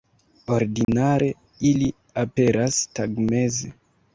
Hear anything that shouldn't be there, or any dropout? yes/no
yes